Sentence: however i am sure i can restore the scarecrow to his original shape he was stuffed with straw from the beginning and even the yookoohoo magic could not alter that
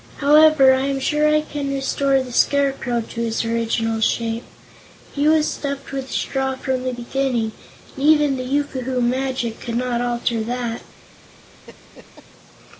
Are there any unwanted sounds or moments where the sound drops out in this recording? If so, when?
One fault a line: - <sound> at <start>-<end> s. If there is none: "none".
- laugh at 11.7-12.3 s